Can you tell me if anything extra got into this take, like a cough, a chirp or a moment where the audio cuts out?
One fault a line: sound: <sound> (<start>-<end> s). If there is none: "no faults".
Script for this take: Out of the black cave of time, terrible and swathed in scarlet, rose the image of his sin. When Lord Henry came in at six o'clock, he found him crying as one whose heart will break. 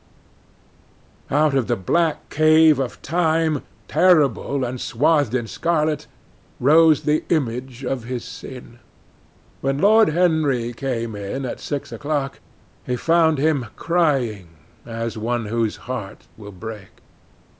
no faults